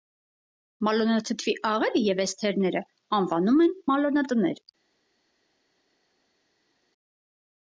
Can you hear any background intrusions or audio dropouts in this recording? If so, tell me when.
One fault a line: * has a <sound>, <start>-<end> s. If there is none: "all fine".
all fine